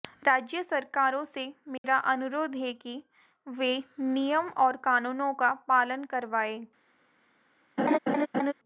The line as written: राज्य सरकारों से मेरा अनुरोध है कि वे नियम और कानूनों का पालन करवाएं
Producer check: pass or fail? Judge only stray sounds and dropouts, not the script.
fail